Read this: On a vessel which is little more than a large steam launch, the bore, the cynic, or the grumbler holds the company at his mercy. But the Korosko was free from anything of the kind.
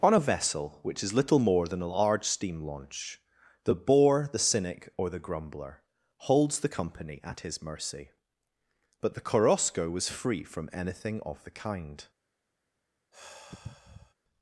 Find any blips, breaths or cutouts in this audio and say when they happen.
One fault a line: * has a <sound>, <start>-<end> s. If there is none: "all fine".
* has a sigh, 13.1-14.1 s